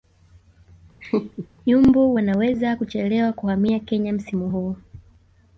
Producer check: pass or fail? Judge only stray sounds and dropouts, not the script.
fail